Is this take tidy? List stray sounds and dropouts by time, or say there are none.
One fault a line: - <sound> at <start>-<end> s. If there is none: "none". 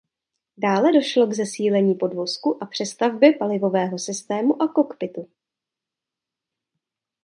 none